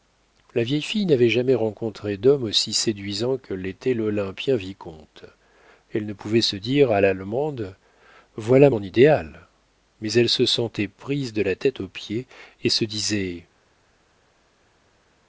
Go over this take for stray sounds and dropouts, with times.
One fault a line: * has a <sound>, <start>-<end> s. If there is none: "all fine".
all fine